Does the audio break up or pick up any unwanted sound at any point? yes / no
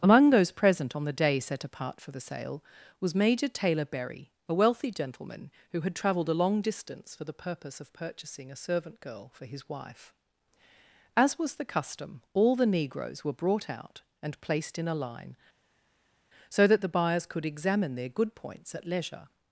no